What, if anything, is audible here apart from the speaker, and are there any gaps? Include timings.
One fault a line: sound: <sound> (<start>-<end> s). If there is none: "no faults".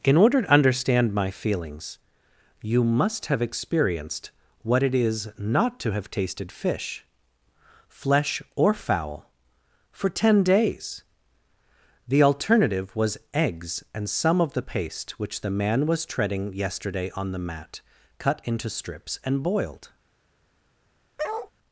sound: bark (21.2-21.5 s)